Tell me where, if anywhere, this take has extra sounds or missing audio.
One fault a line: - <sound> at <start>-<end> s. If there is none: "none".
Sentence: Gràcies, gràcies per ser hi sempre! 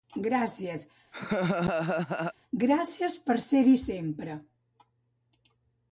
- laugh at 1.1-2.3 s